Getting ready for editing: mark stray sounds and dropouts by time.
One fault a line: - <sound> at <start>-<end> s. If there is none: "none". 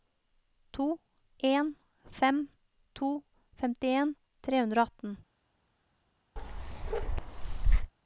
- bark at 6.4-7.9 s